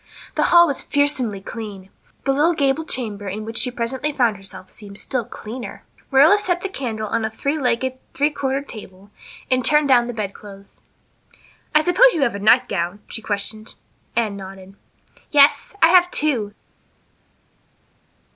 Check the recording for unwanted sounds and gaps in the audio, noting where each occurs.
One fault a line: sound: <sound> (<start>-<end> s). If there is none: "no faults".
no faults